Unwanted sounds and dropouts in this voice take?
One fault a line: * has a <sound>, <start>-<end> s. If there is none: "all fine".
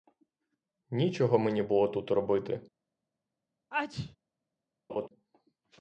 * has a sneeze, 3.7-4.2 s
* has a laugh, 4.9-5.1 s